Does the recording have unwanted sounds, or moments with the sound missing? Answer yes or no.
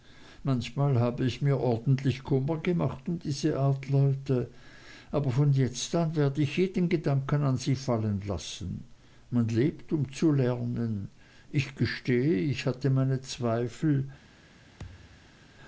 yes